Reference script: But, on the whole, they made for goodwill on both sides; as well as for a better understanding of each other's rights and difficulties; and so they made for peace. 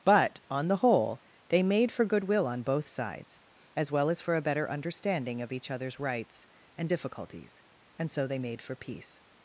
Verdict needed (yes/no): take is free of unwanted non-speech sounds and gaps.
yes